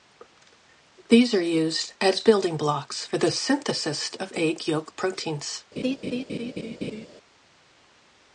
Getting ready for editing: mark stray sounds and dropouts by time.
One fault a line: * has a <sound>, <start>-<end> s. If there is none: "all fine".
* has a laugh, 5.8-7.1 s